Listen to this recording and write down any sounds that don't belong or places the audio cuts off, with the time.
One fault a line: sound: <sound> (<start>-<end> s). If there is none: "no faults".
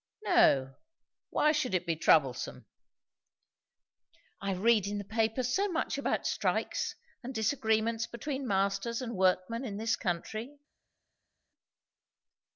no faults